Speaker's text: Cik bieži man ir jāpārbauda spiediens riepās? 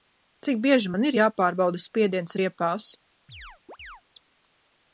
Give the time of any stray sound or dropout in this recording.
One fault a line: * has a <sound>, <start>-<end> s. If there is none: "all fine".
* has a chirp, 3.3-4.0 s